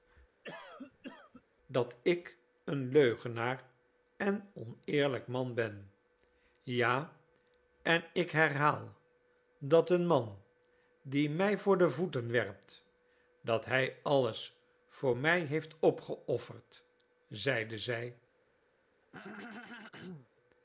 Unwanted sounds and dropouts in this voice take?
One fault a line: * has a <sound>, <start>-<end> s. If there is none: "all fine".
* has a cough, 0.4-1.4 s
* has a throat clearing, 19.0-20.3 s